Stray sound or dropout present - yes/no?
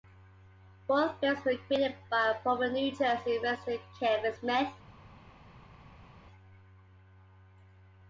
no